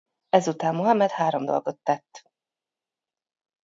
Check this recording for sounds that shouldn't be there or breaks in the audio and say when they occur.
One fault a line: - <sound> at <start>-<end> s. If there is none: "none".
none